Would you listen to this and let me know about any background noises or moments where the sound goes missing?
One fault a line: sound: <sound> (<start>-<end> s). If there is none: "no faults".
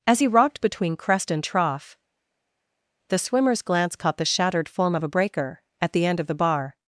no faults